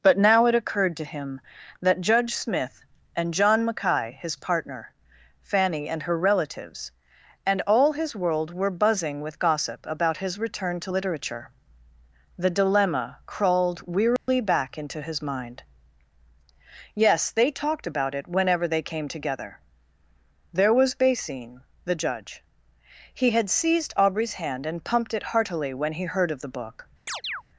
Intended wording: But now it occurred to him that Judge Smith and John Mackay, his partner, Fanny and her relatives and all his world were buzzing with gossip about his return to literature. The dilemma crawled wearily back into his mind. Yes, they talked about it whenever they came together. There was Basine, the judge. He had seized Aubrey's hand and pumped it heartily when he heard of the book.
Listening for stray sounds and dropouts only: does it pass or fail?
fail